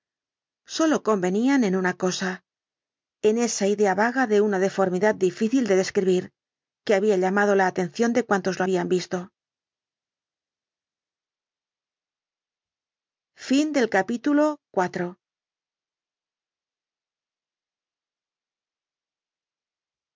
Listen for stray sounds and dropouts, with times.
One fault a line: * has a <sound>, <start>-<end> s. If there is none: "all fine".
all fine